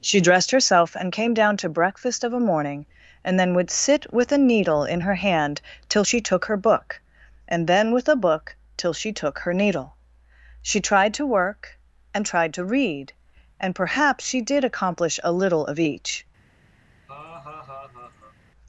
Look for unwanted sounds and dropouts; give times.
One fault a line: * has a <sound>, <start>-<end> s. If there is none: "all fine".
* has a laugh, 17.1-18.4 s